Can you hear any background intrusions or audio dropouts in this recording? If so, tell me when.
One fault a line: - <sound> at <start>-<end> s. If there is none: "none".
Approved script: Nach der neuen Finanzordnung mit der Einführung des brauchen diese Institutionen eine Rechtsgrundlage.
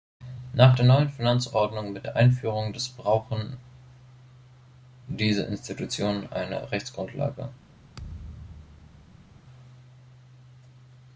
- thud at 8.0-9.4 s